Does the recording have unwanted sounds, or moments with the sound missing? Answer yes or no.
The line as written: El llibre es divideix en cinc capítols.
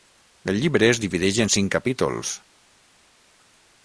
no